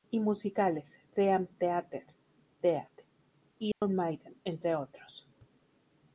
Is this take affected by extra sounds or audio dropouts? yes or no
yes